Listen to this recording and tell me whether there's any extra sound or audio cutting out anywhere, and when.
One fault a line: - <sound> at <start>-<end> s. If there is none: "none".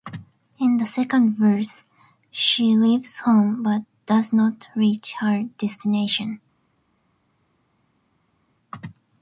none